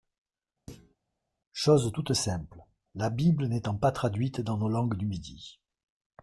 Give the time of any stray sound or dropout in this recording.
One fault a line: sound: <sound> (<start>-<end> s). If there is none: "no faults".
sound: thud (0.7-1.0 s)